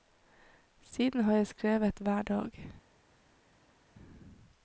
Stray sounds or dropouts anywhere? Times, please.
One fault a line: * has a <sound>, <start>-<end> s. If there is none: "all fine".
all fine